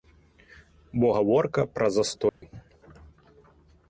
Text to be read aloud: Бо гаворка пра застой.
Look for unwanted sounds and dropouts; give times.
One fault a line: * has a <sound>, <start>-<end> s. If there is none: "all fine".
* has a dropout, 2.3-2.4 s